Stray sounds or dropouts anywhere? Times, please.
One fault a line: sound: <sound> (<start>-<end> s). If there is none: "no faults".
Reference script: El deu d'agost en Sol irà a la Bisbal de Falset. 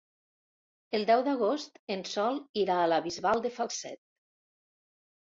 no faults